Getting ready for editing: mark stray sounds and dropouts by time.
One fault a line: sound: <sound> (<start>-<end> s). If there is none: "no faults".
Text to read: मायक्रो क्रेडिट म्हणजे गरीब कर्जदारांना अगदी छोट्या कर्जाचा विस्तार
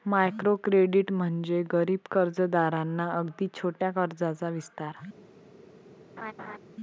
sound: laugh (6.2-6.6 s)